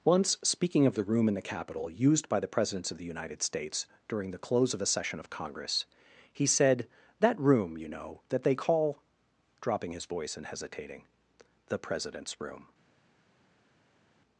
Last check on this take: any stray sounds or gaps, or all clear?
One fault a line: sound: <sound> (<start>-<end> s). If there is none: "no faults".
no faults